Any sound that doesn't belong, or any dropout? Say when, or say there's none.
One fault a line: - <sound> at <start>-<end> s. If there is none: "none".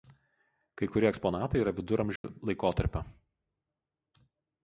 - dropout at 2.2-2.2 s